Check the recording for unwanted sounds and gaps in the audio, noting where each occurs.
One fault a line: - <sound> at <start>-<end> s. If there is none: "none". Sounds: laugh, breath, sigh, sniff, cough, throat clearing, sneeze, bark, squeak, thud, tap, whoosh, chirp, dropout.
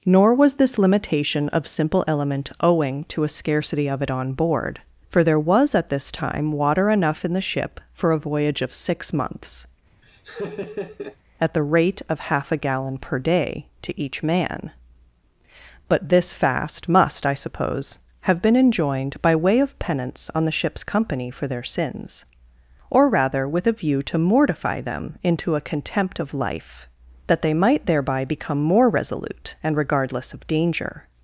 - laugh at 10.0-11.2 s